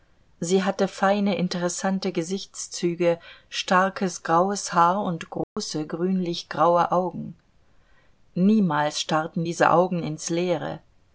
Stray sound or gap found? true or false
true